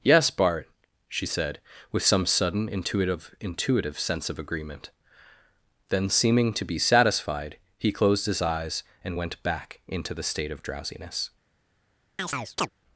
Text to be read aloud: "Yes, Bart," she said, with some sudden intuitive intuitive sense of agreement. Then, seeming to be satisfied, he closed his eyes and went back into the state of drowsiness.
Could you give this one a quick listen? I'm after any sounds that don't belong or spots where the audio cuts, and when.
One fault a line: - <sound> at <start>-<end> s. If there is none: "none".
- chirp at 12.2-12.7 s